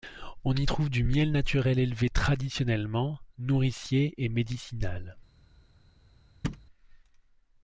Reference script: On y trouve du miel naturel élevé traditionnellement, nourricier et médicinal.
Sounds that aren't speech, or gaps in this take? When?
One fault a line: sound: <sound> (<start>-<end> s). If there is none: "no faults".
sound: thud (6.4-6.7 s)